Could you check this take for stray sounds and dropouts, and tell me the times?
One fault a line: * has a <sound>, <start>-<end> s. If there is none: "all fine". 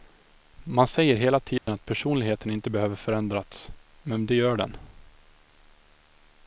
* has a dropout, 1.6-1.7 s